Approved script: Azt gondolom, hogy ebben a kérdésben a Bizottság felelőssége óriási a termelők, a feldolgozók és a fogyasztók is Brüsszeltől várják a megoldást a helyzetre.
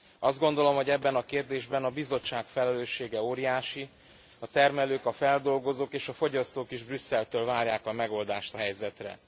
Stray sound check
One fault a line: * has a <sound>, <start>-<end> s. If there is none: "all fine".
all fine